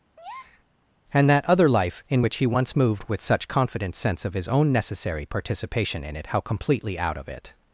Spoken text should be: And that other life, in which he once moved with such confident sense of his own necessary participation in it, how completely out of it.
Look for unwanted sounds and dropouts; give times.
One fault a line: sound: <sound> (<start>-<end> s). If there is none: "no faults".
sound: breath (0.2-0.6 s)